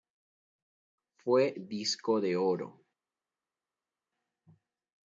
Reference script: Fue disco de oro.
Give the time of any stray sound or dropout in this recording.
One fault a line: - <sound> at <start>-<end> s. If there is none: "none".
none